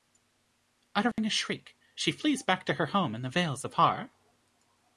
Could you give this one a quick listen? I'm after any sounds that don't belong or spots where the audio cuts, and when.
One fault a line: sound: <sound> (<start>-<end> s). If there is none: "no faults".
sound: dropout (1.1-1.2 s)